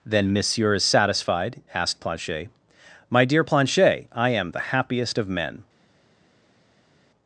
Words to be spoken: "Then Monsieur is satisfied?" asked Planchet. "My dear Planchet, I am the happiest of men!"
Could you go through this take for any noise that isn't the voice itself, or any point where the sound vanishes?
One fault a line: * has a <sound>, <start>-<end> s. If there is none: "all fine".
all fine